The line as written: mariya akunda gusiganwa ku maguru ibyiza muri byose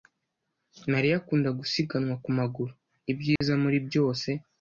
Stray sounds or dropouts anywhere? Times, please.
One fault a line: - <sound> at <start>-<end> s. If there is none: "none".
- dropout at 3.4-3.4 s